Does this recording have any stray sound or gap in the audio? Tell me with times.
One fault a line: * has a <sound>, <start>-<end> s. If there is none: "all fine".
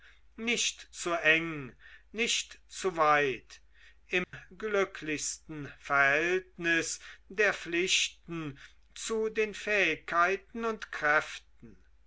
* has a dropout, 4.2-4.3 s